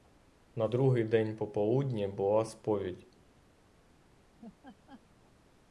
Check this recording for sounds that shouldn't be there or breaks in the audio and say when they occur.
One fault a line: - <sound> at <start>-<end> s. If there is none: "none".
- laugh at 4.4-5.0 s